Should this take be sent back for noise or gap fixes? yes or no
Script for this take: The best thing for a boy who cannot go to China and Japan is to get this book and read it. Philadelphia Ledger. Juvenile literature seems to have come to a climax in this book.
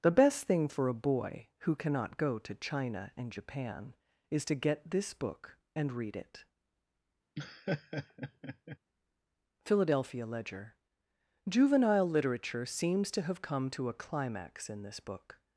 yes